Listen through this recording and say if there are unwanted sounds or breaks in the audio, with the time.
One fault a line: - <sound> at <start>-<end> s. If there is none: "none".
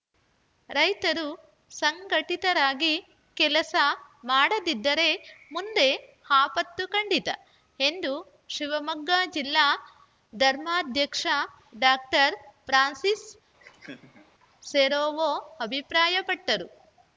- laugh at 13.6-14.3 s